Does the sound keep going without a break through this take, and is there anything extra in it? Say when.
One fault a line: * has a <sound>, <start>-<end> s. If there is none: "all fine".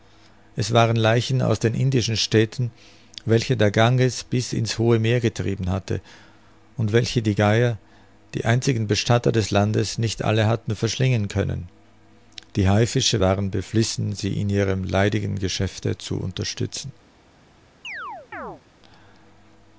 * has a chirp, 17.8-18.6 s